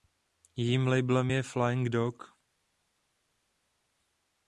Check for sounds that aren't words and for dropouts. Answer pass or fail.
pass